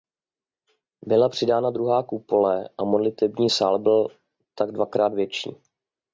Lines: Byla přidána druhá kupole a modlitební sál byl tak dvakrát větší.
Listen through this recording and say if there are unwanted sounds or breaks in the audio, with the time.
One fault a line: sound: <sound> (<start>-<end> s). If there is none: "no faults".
no faults